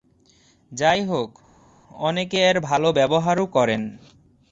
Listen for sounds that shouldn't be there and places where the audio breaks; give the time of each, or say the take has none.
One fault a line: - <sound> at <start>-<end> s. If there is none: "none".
none